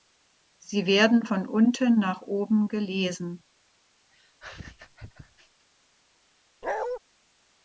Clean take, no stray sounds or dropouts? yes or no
no